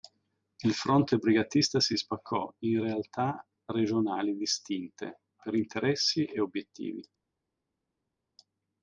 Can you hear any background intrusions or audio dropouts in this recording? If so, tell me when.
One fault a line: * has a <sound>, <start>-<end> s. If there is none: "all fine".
all fine